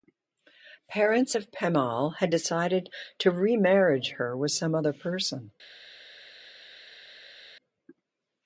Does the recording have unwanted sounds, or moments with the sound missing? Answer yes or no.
no